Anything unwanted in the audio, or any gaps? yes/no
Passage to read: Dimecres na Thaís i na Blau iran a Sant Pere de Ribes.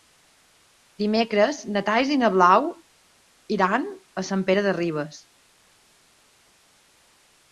no